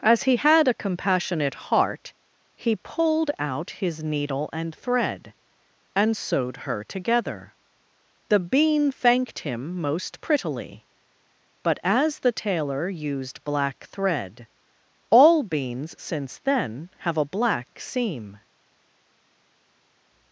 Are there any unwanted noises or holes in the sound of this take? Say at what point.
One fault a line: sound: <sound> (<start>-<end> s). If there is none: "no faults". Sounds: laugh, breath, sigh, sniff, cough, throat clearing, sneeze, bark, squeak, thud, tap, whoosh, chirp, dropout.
no faults